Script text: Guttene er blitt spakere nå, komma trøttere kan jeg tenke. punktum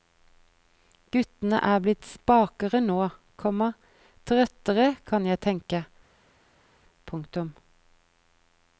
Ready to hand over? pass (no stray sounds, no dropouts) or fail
pass